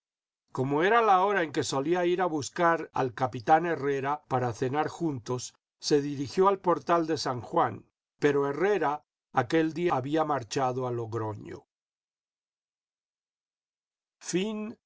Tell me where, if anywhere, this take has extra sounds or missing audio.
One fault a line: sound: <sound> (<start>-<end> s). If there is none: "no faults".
no faults